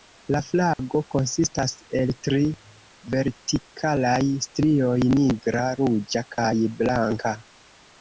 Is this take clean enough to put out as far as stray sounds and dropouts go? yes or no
no